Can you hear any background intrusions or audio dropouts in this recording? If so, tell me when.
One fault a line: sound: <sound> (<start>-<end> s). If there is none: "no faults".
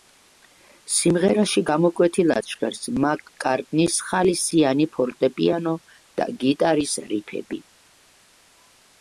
no faults